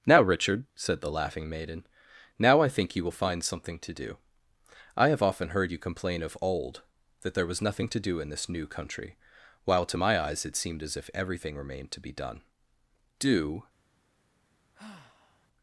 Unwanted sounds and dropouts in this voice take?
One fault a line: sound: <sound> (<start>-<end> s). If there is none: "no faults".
sound: sigh (14.7-15.5 s)